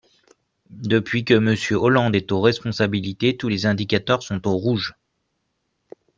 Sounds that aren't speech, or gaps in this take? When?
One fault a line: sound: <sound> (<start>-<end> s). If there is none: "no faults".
no faults